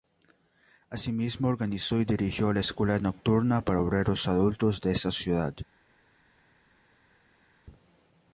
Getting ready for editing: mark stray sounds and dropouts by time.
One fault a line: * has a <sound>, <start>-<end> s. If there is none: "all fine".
all fine